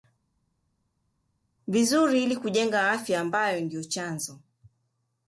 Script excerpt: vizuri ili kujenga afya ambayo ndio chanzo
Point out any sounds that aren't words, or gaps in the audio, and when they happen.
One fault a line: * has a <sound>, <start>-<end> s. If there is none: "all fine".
all fine